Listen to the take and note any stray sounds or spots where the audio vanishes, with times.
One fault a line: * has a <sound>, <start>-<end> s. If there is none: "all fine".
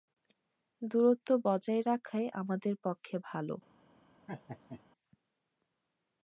* has a laugh, 4.3-4.8 s